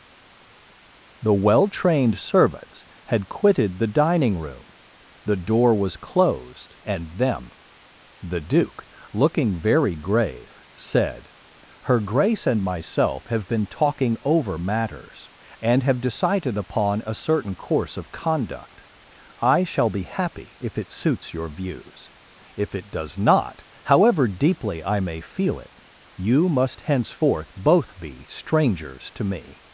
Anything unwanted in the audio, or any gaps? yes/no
no